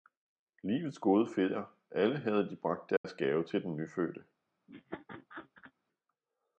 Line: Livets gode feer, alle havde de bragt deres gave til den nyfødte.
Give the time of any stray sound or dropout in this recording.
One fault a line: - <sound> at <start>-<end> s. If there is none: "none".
- dropout at 3.0-3.0 s
- laugh at 4.7-5.7 s